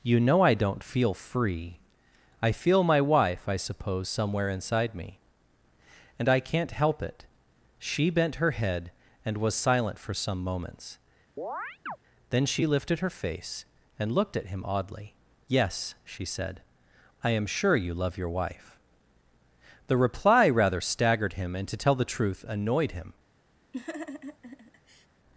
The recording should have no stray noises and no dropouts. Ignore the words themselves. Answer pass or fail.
fail